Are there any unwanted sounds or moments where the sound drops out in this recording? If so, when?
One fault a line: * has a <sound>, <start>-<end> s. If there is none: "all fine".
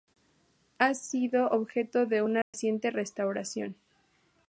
* has a dropout, 2.4-2.5 s